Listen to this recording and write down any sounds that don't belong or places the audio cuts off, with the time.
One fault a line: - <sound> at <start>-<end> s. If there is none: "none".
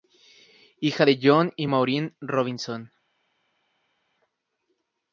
none